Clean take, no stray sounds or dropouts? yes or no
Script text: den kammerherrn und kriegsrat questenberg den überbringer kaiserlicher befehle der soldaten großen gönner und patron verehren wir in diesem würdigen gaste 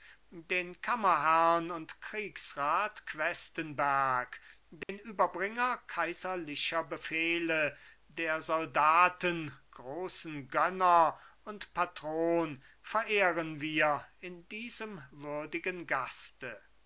no